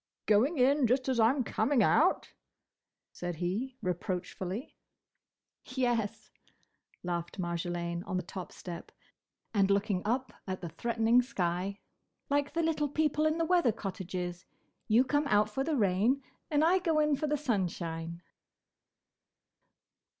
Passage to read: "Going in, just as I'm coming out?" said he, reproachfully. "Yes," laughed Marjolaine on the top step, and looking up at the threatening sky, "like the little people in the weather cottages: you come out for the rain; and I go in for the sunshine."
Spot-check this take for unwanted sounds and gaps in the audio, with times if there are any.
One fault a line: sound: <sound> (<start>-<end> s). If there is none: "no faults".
no faults